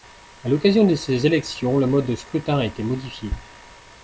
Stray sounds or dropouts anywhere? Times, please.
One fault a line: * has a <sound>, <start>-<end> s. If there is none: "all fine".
all fine